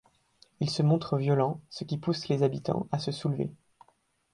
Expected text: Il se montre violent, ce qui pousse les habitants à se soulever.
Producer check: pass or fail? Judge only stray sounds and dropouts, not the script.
pass